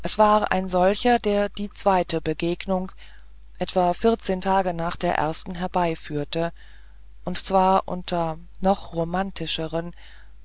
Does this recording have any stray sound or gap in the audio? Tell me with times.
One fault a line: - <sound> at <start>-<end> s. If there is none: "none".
none